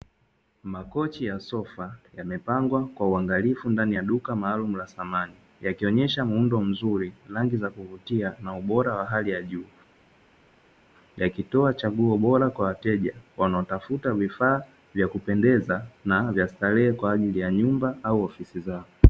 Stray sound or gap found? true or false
false